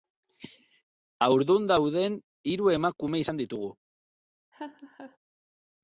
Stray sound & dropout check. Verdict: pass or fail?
fail